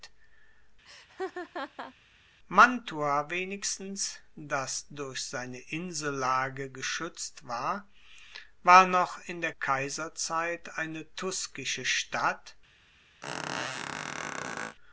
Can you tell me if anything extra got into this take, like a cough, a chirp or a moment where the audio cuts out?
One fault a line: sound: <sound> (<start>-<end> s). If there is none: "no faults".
sound: laugh (0.9-1.9 s)
sound: squeak (13.2-14.8 s)